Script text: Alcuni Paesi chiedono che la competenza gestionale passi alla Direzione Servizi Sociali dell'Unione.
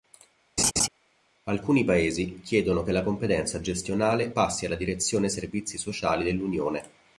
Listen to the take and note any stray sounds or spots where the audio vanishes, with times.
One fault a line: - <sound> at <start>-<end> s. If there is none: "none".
- laugh at 0.6-0.9 s